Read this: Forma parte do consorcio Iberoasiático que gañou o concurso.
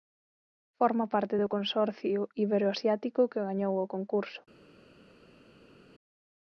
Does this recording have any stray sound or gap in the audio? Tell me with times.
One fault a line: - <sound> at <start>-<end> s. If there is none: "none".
none